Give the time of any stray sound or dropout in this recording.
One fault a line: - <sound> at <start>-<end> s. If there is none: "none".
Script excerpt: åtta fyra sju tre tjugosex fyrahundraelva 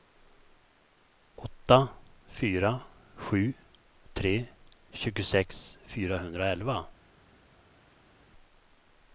none